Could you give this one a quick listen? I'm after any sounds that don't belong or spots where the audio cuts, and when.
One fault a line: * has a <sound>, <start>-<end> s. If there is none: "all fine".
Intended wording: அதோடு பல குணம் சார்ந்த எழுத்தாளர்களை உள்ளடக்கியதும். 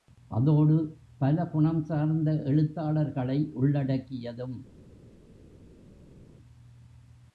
all fine